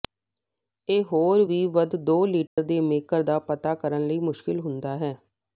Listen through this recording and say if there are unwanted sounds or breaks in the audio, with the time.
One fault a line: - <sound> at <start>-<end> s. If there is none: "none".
- dropout at 2.5-2.6 s